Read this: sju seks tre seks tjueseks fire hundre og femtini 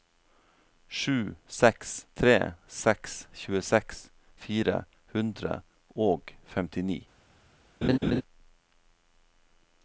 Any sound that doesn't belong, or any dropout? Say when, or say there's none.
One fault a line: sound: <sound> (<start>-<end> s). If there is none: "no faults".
sound: laugh (7.8-8.2 s)